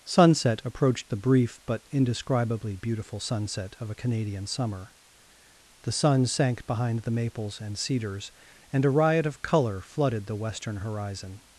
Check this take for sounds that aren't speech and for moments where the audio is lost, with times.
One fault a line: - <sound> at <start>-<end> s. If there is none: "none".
none